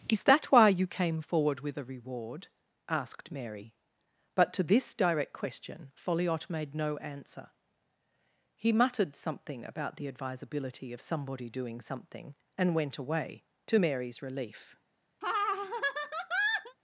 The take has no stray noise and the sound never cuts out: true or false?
false